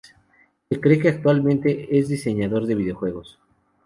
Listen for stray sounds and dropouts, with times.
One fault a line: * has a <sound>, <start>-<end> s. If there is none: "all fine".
all fine